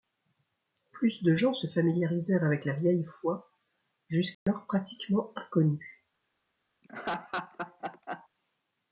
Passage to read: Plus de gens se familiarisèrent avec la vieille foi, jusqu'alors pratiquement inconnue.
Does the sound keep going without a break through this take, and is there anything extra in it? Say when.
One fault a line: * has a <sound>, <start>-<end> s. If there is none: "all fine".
* has a dropout, 4.3-4.5 s
* has a laugh, 6.8-8.3 s